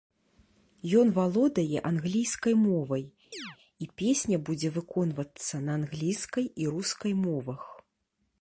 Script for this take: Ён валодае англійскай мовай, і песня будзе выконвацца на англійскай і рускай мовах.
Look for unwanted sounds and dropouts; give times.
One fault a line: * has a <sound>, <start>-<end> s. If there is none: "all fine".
* has a chirp, 3.3-3.6 s